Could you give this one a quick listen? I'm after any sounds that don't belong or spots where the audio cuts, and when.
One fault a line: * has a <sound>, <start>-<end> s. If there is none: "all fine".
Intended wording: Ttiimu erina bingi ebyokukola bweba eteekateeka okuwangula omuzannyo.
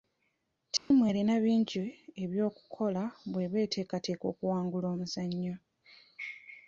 * has a dropout, 0.8-0.9 s